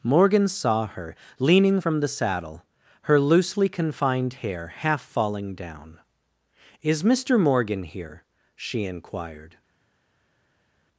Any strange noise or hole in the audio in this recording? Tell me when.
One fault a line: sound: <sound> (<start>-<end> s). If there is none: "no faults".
no faults